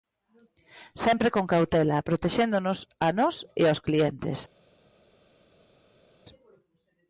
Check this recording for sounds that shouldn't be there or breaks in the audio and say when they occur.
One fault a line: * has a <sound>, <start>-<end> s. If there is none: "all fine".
all fine